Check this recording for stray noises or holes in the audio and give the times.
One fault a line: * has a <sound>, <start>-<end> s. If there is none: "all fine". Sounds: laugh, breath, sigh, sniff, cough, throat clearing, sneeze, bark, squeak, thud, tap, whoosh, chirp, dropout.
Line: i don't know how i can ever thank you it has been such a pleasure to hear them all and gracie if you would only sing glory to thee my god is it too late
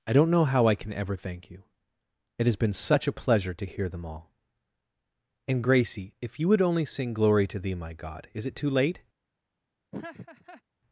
* has a laugh, 9.9-10.6 s